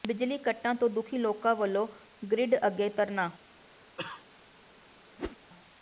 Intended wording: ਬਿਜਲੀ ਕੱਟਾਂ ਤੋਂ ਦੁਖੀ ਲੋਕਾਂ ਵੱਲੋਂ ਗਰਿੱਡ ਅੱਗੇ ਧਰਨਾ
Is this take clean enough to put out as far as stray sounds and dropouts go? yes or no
no